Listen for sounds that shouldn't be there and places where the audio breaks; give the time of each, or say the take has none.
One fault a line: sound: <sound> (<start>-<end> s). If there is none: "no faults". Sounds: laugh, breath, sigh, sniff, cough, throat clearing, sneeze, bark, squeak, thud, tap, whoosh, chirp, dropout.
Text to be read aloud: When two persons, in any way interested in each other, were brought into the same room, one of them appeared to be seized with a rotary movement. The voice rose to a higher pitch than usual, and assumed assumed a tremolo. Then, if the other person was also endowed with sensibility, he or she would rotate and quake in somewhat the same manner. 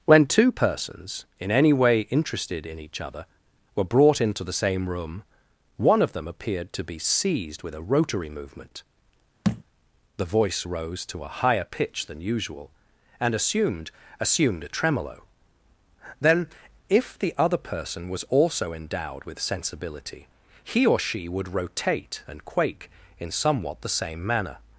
sound: thud (9.4-9.6 s)